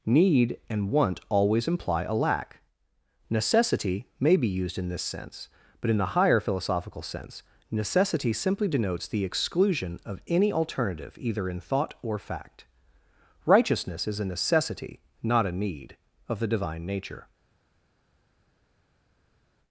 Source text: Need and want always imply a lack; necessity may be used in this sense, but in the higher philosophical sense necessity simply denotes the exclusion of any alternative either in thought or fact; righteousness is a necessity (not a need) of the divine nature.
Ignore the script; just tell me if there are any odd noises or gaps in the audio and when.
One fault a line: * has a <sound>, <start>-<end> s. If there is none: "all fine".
all fine